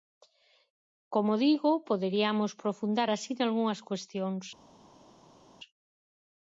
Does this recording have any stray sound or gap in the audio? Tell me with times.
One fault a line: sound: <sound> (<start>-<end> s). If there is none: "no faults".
no faults